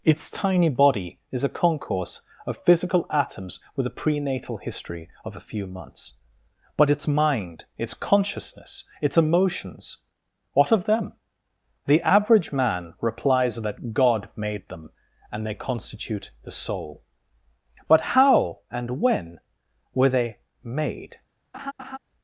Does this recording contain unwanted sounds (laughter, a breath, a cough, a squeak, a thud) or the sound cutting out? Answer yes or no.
yes